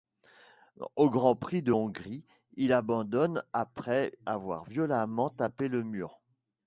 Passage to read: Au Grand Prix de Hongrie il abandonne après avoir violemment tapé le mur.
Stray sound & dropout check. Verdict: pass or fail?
pass